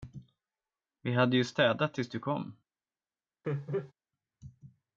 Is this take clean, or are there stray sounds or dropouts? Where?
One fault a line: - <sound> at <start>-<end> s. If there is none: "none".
- laugh at 3.4-3.9 s